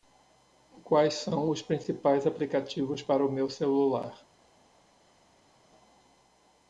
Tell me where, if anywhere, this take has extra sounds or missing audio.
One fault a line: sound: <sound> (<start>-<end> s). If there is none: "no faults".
no faults